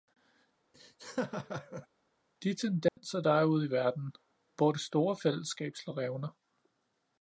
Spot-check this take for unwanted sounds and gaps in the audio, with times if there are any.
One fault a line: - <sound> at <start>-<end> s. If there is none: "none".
- laugh at 0.7-1.9 s
- dropout at 2.9-3.0 s